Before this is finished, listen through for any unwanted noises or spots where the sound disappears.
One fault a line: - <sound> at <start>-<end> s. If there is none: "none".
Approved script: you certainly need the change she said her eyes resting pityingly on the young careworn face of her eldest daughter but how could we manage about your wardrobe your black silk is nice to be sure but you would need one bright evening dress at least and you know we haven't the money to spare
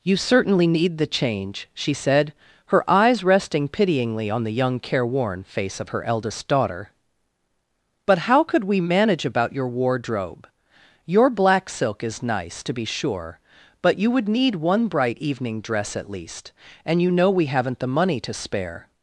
none